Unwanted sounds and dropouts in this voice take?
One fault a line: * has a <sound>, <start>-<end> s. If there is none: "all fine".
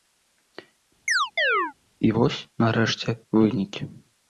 * has a chirp, 1.1-1.7 s